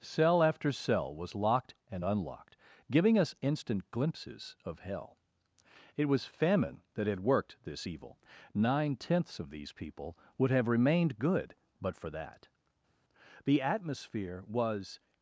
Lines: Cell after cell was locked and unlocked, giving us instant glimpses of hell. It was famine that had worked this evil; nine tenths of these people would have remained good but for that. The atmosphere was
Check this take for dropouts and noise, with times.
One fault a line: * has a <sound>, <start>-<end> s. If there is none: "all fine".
all fine